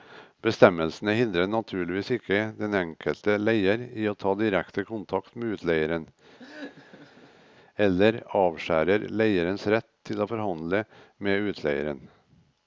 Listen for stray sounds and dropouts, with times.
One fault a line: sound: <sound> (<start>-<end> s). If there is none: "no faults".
sound: laugh (6.4-7.4 s)